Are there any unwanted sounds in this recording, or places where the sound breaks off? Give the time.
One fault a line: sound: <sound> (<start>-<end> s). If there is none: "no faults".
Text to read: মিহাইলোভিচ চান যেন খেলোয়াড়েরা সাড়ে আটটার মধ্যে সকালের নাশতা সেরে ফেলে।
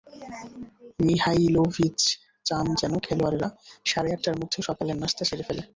no faults